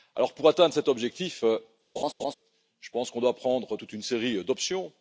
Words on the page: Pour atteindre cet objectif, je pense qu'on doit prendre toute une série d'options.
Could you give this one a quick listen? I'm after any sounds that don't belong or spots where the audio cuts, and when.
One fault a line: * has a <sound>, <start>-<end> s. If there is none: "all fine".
* has a laugh, 2.0-2.3 s